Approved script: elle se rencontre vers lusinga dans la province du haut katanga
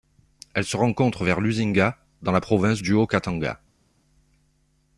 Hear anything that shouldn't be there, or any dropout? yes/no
no